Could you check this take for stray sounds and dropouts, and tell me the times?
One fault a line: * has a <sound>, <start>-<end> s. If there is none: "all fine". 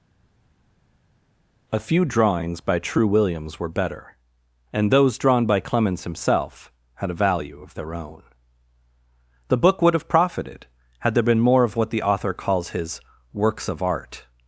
all fine